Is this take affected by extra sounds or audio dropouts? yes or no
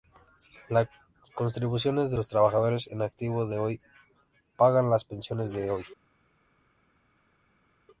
no